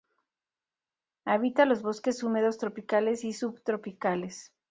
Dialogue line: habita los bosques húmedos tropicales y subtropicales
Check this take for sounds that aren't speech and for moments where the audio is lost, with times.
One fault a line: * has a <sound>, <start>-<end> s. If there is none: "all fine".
all fine